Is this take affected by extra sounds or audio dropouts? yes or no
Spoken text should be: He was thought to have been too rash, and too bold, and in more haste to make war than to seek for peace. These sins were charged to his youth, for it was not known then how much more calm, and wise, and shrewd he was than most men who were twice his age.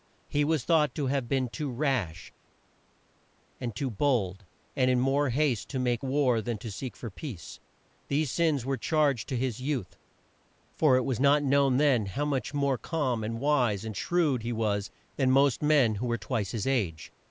no